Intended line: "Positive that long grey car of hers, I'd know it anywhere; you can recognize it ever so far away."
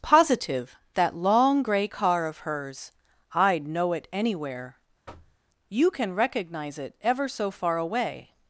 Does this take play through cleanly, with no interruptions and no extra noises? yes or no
no